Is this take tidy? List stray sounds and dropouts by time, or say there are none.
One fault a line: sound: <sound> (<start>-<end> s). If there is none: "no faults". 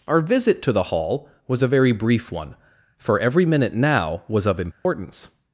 sound: dropout (4.7-4.8 s)